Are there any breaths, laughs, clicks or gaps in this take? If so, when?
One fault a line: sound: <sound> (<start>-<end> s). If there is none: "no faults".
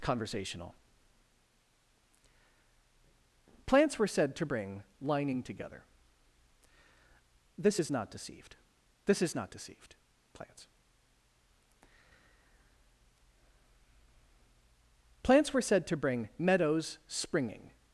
no faults